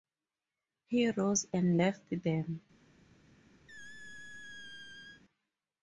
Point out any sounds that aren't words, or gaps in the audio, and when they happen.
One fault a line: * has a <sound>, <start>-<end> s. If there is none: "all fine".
* has a squeak, 3.7-5.2 s